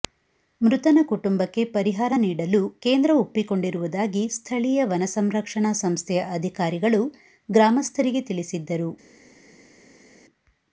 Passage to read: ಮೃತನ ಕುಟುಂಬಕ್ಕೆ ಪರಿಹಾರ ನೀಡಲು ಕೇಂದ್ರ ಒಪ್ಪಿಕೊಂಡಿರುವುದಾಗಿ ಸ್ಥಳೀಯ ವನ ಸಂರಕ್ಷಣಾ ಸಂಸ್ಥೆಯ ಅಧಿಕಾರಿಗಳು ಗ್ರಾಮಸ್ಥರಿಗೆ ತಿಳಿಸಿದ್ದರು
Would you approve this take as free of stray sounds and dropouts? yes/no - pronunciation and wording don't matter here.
yes